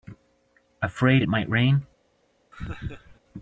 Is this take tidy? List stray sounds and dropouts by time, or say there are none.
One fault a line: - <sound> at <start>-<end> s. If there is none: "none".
- laugh at 2.5-3.2 s